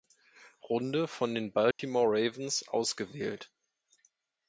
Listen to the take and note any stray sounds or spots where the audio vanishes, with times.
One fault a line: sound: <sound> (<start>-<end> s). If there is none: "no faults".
sound: dropout (1.7-1.8 s)